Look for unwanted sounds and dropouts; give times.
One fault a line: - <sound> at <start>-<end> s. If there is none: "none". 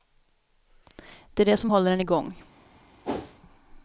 - whoosh at 3.0-3.3 s